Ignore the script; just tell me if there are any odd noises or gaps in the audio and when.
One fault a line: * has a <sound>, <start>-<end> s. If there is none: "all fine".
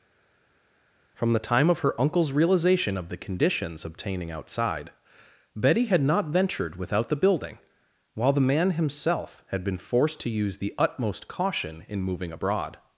all fine